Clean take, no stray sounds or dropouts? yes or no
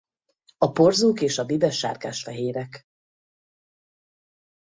yes